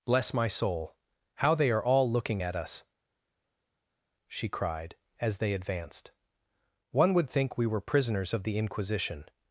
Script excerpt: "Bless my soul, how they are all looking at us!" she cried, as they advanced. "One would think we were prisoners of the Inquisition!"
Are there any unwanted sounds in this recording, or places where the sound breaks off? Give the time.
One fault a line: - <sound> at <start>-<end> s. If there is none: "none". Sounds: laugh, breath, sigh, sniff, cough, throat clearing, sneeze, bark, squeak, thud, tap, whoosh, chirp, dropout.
none